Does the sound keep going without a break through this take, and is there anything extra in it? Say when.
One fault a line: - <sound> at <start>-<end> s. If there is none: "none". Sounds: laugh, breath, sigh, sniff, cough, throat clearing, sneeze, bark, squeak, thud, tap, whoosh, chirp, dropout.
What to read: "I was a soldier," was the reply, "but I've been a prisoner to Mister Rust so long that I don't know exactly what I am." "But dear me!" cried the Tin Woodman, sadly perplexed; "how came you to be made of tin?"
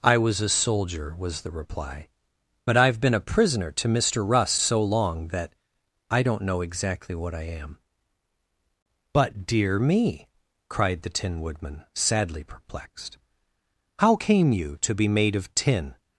none